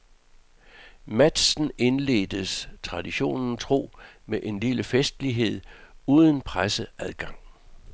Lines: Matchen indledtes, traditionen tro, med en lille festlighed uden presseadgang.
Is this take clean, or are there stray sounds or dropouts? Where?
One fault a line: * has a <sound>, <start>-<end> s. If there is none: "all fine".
all fine